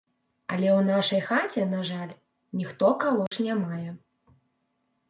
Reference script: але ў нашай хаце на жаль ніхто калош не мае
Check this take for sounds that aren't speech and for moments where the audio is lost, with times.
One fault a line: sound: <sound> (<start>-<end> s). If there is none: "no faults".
sound: dropout (3.3-3.3 s)